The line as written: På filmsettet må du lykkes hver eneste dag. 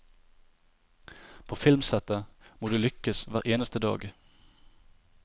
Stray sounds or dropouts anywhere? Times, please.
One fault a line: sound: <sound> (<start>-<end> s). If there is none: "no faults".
no faults